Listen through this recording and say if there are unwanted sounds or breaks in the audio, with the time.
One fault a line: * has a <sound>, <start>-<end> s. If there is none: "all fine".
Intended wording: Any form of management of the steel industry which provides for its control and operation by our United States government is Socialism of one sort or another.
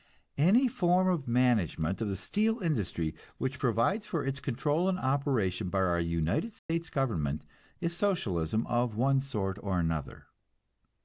* has a dropout, 6.6-6.7 s